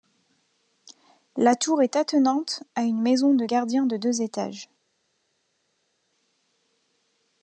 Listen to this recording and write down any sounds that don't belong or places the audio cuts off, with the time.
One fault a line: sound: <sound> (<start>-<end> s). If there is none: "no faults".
no faults